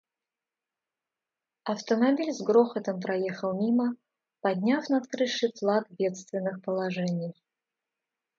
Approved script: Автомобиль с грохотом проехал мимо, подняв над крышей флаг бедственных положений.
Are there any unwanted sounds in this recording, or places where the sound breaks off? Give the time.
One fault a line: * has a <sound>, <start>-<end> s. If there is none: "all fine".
all fine